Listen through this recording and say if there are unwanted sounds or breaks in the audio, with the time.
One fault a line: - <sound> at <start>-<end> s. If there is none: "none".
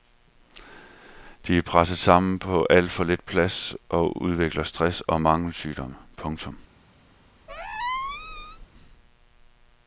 - squeak at 7.5-8.7 s